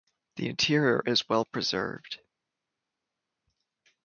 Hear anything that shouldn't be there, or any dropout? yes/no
no